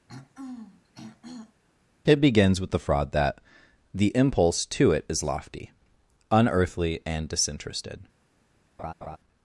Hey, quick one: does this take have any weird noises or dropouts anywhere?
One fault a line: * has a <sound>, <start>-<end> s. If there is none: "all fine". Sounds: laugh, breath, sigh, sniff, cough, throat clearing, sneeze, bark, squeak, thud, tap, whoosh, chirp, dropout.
* has a throat clearing, 0.1-1.6 s
* has a laugh, 8.8-9.2 s